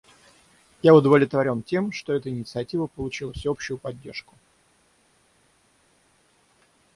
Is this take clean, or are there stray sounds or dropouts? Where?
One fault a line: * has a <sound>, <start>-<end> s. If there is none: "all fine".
all fine